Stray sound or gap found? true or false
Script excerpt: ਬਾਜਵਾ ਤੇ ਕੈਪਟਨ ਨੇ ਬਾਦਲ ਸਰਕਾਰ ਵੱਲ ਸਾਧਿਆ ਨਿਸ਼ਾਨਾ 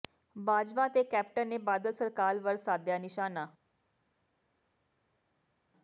false